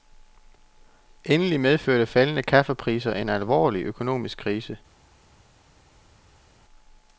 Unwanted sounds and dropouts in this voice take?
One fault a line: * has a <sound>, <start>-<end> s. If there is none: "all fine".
all fine